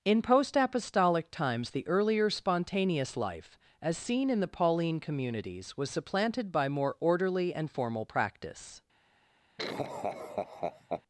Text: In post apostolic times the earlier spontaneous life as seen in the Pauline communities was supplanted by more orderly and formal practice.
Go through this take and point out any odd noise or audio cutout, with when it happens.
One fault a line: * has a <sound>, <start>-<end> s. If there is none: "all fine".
* has a laugh, 9.6-11.0 s